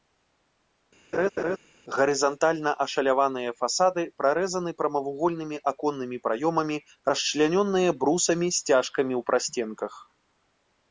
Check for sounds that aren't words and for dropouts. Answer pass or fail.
fail